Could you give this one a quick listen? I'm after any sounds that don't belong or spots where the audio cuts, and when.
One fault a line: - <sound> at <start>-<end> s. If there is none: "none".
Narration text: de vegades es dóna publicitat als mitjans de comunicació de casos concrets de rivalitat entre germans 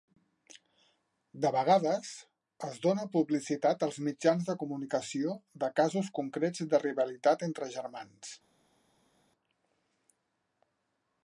none